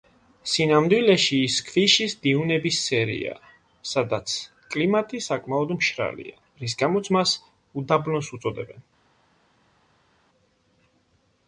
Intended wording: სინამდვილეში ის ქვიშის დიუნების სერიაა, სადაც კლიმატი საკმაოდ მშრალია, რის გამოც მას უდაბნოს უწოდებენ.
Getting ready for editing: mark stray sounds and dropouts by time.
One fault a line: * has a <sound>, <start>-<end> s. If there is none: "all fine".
all fine